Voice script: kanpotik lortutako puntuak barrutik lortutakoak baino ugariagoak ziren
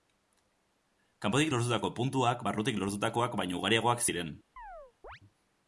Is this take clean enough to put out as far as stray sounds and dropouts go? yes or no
no